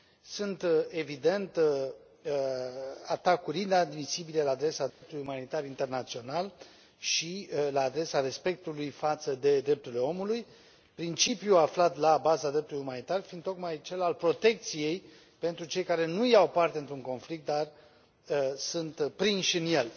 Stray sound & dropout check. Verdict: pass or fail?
fail